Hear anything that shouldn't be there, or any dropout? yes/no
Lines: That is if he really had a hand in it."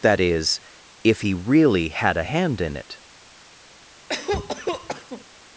yes